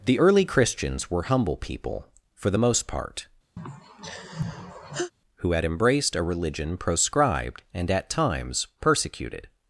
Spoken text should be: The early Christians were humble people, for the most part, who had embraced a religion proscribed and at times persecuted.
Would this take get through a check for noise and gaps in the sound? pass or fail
fail